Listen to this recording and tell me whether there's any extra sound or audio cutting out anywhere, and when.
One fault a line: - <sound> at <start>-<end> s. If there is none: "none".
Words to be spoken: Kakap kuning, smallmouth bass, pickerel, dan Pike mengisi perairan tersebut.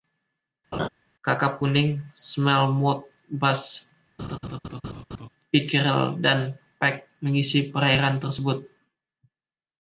- laugh at 0.7-0.9 s
- laugh at 4.2-5.3 s